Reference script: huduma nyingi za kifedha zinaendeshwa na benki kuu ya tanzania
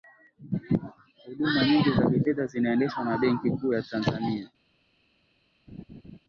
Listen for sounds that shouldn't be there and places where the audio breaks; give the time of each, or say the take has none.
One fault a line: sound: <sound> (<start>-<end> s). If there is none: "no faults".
sound: laugh (5.7-6.2 s)